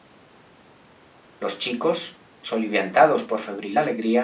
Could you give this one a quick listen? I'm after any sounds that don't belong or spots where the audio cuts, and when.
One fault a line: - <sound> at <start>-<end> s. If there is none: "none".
none